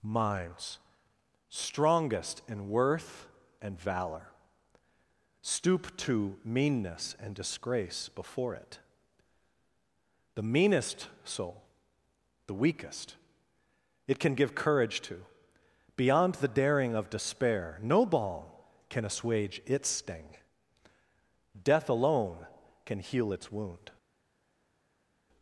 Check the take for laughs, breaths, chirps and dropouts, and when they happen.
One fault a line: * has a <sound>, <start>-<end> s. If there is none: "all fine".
all fine